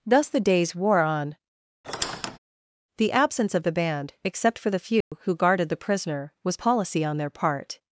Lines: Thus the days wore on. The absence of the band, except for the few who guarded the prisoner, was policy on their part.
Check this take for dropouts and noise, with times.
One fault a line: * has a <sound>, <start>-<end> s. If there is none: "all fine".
* has a squeak, 1.8-2.4 s
* has a dropout, 5.0-5.1 s